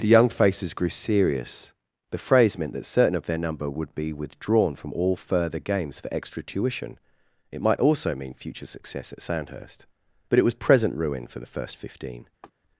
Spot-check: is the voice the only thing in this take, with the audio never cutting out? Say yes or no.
no